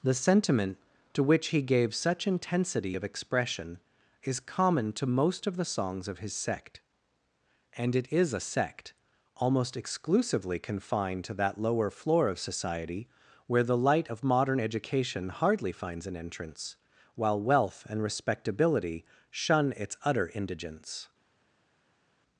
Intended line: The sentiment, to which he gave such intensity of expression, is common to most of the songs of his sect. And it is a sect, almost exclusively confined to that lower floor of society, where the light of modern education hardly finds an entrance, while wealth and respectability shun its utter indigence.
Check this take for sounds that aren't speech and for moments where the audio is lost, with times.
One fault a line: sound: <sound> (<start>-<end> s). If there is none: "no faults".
no faults